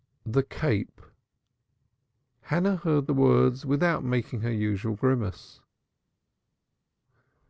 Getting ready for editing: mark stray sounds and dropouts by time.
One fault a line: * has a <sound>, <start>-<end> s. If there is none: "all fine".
all fine